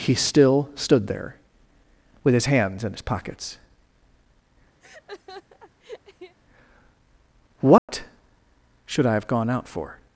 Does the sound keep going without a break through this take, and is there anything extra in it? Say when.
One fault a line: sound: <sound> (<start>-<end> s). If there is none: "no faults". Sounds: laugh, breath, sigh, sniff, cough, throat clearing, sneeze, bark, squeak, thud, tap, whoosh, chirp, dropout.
sound: laugh (4.8-6.4 s)
sound: dropout (7.8-7.9 s)